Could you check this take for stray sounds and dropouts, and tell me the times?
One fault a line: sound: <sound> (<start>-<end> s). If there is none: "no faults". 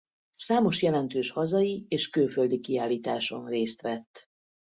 no faults